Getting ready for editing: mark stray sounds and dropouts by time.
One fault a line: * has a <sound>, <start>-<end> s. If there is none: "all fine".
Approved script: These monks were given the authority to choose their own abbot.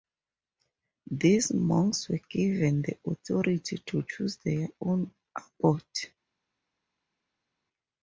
all fine